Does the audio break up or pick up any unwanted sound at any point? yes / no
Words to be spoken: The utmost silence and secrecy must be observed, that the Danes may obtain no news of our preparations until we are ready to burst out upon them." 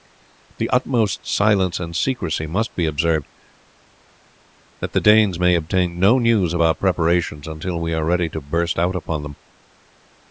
no